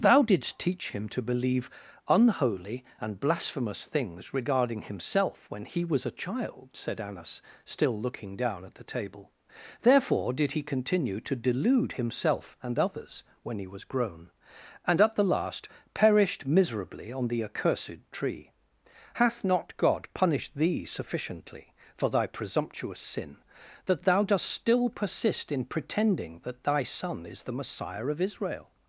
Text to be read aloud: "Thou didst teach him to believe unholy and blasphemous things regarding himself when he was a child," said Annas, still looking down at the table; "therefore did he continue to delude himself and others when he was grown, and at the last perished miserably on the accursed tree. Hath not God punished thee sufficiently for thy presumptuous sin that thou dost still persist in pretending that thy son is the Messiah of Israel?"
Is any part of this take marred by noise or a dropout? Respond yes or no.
no